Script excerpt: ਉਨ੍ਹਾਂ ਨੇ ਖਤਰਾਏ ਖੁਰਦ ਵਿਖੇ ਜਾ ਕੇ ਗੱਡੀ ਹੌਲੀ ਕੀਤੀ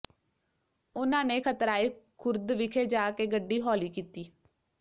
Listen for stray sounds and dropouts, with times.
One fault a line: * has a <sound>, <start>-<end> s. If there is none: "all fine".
all fine